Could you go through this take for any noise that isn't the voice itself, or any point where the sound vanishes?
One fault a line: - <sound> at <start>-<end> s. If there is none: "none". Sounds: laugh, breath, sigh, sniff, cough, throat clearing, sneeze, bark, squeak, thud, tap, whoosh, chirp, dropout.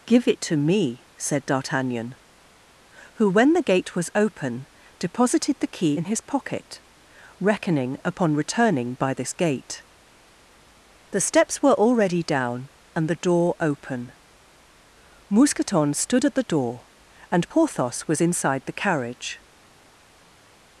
none